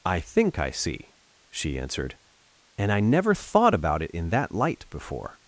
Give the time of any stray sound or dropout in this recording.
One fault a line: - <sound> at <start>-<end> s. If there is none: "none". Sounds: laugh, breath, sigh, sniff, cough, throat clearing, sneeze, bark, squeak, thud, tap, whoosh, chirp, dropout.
none